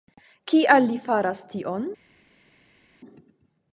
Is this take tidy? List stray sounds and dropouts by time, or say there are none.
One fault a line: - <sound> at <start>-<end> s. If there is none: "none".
none